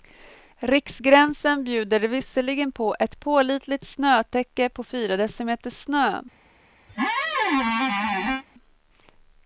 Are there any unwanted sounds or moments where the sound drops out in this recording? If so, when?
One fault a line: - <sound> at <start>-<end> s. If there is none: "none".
- squeak at 6.9-8.4 s